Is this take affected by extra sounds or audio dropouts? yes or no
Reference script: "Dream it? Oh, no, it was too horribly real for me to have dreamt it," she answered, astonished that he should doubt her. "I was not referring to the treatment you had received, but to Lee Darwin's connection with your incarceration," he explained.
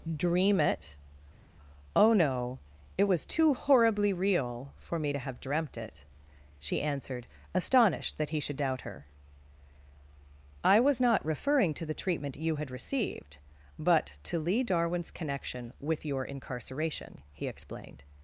no